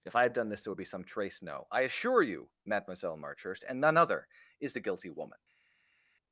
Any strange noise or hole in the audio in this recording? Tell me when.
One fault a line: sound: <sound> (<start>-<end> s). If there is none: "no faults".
no faults